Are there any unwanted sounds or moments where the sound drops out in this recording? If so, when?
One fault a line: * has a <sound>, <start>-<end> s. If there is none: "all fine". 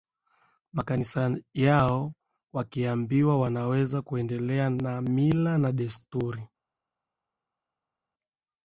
all fine